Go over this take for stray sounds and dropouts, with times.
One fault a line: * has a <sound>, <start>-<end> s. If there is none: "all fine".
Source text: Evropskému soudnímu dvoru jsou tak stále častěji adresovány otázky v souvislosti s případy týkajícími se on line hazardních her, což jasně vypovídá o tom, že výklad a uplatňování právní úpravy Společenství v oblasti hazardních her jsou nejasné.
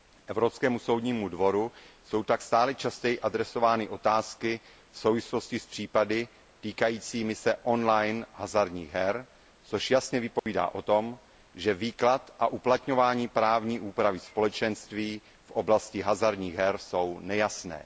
* has a dropout, 10.4-10.5 s